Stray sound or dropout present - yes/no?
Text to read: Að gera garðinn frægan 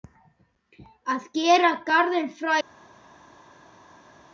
no